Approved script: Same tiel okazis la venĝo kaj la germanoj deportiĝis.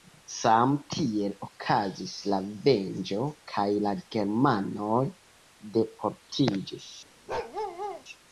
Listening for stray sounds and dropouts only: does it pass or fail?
fail